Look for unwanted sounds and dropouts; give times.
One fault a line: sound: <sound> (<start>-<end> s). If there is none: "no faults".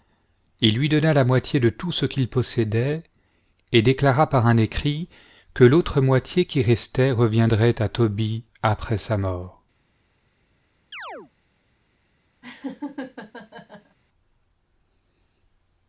sound: chirp (10.9-11.3 s)
sound: laugh (12.4-14.0 s)